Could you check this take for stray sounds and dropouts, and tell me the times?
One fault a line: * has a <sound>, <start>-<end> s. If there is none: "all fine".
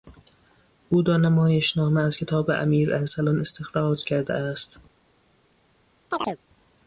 * has a chirp, 6.1-6.4 s